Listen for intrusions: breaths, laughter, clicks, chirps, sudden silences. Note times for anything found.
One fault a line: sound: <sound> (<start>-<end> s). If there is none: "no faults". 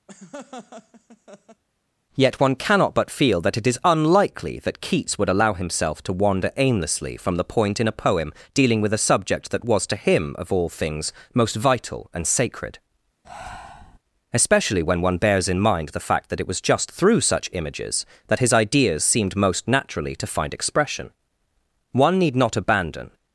sound: laugh (0.1-1.6 s)
sound: breath (13.2-14.0 s)